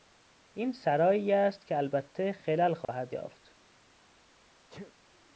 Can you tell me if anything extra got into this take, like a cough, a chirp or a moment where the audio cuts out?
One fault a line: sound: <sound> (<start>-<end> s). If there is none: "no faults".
sound: dropout (2.8-2.9 s)
sound: sneeze (4.7-4.9 s)